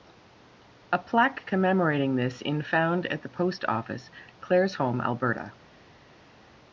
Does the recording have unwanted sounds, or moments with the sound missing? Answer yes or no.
no